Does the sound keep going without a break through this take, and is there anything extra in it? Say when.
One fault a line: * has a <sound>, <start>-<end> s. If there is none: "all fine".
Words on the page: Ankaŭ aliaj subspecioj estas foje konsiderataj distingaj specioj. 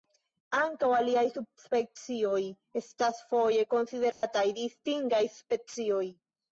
* has a dropout, 4.1-4.2 s